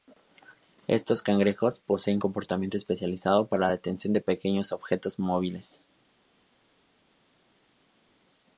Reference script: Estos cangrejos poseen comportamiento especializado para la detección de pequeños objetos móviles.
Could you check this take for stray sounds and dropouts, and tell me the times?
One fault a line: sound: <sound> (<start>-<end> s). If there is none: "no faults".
no faults